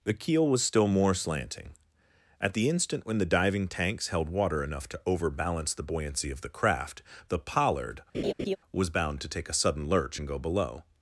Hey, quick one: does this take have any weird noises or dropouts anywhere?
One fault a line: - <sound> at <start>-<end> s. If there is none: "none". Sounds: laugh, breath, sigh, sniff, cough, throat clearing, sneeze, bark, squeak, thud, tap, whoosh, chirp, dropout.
- laugh at 8.1-8.6 s